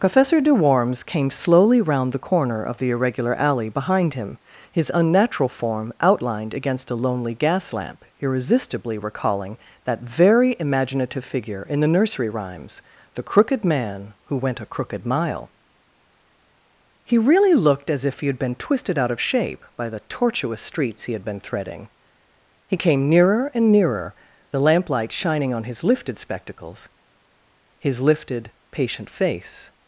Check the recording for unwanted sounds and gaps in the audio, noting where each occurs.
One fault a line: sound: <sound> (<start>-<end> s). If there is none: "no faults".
no faults